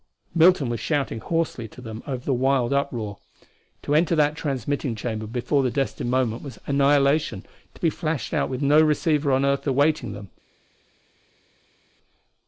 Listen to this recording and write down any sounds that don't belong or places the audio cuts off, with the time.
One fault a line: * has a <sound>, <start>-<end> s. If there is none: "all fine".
all fine